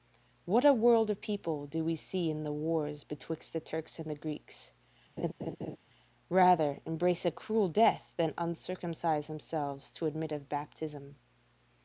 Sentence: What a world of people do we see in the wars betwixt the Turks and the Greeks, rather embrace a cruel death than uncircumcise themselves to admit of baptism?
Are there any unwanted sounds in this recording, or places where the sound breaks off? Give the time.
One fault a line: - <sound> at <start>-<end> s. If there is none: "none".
- laugh at 5.2-5.8 s